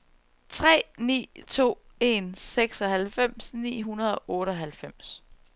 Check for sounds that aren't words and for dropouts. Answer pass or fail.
pass